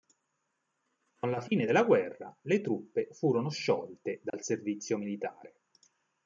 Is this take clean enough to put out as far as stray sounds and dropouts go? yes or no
no